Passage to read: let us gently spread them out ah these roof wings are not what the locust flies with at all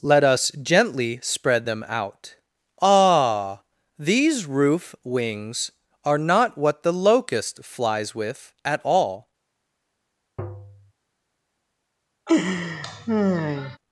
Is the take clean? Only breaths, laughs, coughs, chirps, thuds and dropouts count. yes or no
no